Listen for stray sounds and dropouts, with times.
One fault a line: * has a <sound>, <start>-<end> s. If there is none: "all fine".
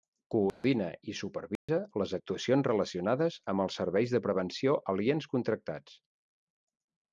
* has a dropout, 0.5-0.6 s
* has a dropout, 1.6-1.7 s